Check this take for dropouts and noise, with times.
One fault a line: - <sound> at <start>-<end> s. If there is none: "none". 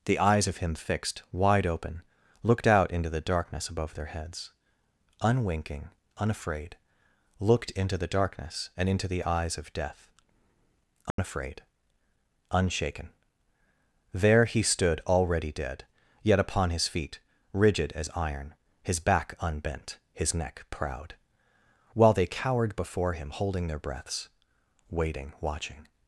- dropout at 11.1-11.2 s